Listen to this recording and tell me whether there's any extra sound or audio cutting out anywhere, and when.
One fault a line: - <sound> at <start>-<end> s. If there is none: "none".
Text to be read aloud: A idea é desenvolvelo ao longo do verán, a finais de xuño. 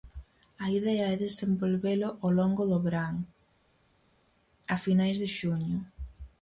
none